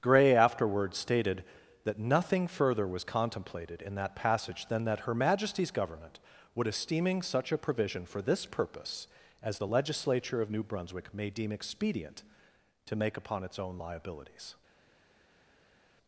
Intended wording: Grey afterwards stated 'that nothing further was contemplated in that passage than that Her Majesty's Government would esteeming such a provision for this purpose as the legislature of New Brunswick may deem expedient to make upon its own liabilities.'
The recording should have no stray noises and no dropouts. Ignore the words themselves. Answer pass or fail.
pass